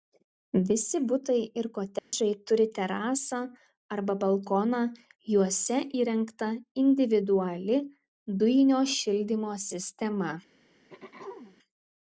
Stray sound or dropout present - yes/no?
yes